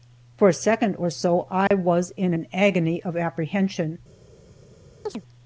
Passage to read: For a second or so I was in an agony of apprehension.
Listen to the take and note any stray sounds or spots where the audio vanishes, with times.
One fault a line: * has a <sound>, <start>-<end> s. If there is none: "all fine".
* has a dropout, 1.7-1.7 s
* has a chirp, 5.1-5.2 s